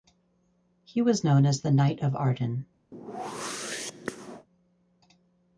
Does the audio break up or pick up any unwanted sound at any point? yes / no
yes